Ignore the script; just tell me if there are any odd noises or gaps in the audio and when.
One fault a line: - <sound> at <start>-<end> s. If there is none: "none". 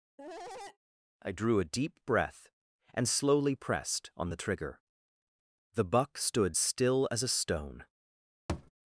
- cough at 0.2-0.8 s
- thud at 8.5-8.7 s